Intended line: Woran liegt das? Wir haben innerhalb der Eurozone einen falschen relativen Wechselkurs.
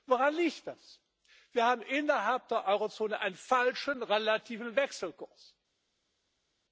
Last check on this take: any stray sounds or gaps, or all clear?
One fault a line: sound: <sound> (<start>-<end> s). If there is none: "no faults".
no faults